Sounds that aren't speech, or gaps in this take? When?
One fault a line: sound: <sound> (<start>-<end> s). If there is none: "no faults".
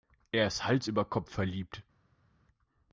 no faults